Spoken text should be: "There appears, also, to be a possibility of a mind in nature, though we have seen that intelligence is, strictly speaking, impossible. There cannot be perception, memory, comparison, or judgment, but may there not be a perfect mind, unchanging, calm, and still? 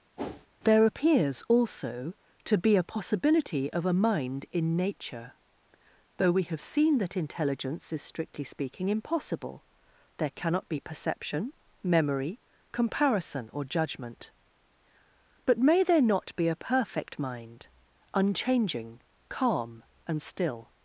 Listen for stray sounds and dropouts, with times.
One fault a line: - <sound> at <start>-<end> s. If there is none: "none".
- whoosh at 0.2-0.5 s